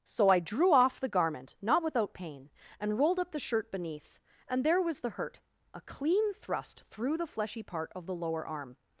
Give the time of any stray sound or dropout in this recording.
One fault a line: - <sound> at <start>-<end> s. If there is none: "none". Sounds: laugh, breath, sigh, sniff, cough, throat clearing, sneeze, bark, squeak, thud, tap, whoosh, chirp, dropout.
none